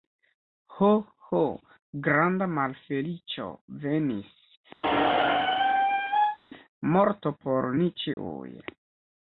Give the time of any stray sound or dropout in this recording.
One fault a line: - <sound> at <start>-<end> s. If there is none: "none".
- squeak at 4.8-6.4 s
- dropout at 8.1-8.2 s